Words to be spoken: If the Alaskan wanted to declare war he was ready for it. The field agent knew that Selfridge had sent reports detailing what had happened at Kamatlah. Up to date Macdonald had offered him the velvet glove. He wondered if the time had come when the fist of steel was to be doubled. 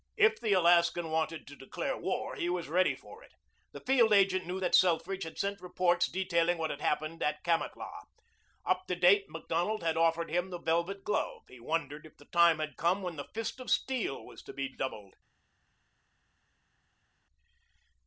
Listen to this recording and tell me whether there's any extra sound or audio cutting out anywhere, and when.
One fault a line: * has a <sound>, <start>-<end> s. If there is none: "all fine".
all fine